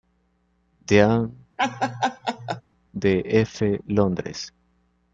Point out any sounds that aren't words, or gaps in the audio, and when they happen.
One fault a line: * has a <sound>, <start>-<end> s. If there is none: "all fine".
* has a laugh, 1.6-2.6 s